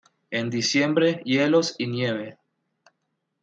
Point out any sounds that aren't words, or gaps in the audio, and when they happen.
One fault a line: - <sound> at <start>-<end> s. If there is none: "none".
none